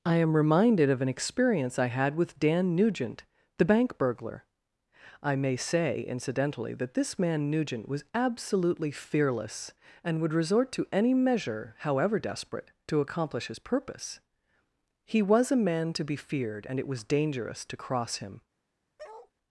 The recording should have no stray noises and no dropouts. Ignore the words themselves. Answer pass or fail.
fail